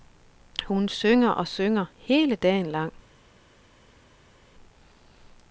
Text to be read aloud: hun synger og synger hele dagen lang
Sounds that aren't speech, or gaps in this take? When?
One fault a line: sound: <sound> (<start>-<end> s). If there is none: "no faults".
no faults